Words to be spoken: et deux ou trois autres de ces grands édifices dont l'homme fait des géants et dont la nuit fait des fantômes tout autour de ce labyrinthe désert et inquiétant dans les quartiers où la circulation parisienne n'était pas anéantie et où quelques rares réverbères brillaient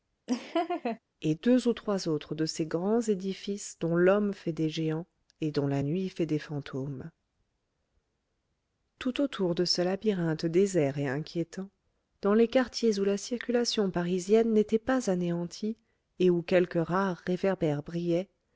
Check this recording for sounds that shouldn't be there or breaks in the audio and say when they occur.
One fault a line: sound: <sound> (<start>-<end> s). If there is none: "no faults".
sound: laugh (0.3-1.0 s)